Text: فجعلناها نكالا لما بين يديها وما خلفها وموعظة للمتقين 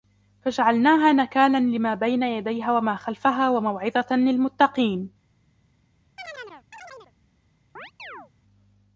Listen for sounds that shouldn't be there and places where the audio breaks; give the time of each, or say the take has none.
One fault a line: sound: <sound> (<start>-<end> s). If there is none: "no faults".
sound: chirp (6.2-7.1 s)
sound: chirp (7.8-8.3 s)